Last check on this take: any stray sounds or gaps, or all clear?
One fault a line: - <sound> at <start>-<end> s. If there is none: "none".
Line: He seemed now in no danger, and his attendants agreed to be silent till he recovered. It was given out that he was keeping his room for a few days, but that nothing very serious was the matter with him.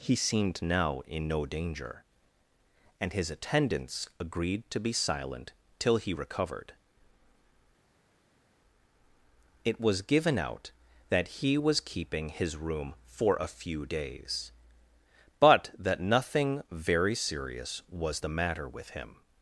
none